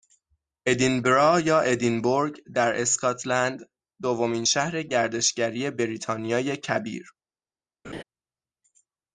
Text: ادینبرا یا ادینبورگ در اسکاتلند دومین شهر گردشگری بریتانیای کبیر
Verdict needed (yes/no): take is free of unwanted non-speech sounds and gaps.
no